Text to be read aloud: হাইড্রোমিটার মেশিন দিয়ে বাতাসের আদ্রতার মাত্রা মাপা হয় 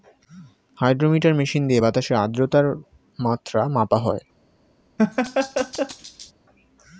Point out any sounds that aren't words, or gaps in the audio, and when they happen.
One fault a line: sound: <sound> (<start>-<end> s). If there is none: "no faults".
sound: laugh (5.0-6.3 s)